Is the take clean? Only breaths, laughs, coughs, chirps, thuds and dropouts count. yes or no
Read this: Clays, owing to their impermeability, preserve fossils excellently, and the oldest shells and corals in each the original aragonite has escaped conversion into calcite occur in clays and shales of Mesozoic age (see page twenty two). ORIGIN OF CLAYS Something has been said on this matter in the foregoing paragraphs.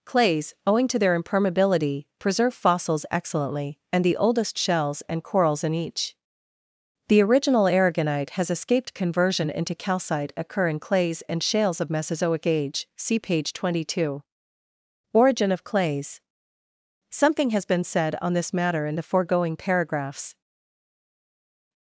yes